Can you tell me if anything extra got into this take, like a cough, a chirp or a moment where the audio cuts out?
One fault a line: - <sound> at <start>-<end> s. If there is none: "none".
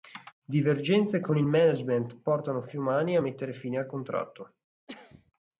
- cough at 4.9-5.3 s